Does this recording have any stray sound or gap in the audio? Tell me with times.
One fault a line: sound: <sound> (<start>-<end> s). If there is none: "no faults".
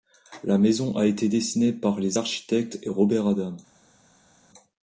no faults